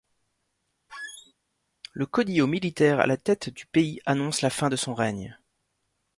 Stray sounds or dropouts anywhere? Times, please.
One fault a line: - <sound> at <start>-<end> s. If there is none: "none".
- squeak at 0.9-1.3 s